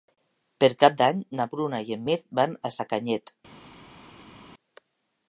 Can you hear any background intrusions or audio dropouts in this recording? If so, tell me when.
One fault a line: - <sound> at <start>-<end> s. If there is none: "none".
none